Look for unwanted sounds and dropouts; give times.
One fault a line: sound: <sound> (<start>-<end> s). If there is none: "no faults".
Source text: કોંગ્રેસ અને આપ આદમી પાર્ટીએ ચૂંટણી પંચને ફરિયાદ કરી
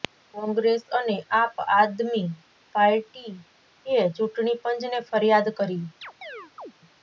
sound: chirp (6.0-6.7 s)